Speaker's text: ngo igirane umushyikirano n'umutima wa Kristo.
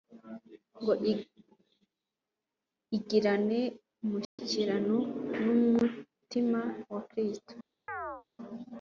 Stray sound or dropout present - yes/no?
yes